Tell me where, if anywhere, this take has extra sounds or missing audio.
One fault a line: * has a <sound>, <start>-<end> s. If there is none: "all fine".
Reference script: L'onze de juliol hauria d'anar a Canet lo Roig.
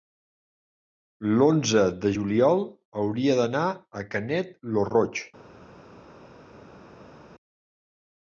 all fine